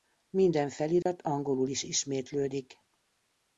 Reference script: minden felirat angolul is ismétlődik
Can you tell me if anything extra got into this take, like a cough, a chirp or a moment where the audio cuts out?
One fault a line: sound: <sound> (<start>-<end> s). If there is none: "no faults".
sound: dropout (1.0-1.1 s)